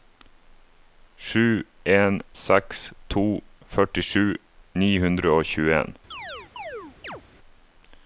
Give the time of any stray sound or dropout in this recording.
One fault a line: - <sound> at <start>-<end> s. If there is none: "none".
- chirp at 6.1-7.2 s